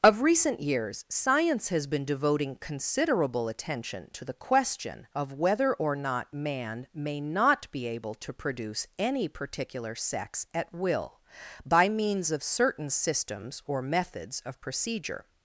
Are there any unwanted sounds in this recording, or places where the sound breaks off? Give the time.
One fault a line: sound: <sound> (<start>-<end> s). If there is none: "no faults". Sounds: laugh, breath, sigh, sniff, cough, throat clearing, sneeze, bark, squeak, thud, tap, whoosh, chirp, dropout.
no faults